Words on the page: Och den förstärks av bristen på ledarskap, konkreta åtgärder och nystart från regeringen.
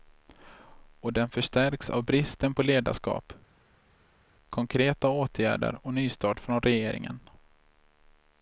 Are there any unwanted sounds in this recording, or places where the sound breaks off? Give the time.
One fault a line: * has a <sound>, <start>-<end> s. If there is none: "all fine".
all fine